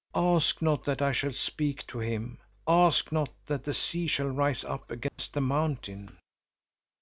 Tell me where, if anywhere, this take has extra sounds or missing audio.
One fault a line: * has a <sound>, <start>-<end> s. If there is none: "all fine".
* has a dropout, 5.1-5.2 s